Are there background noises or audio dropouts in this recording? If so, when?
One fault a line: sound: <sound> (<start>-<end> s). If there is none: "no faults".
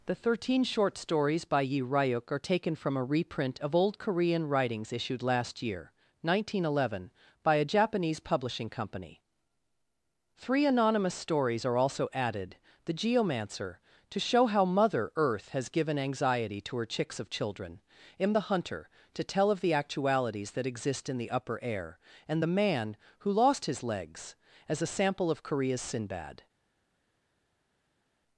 no faults